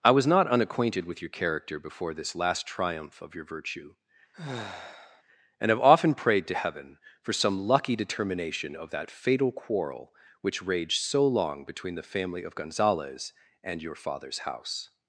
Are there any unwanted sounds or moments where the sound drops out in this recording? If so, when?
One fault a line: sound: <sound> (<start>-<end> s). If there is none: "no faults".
sound: sigh (4.3-5.2 s)